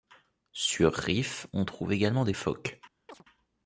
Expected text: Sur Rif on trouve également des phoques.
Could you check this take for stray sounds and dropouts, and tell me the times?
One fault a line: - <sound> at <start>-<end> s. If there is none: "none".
- chirp at 3.1-3.2 s